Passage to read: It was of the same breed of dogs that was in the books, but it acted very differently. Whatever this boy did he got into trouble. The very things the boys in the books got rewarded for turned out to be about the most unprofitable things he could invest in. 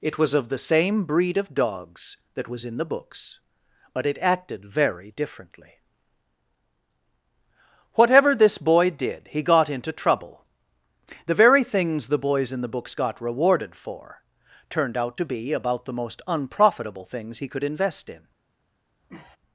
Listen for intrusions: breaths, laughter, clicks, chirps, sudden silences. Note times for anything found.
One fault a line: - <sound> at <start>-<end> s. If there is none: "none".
- sniff at 19.0-19.4 s